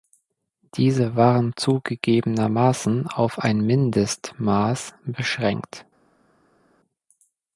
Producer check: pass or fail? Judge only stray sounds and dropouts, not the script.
pass